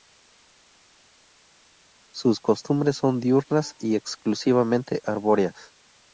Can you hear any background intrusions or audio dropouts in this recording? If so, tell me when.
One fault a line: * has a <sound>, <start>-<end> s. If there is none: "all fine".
all fine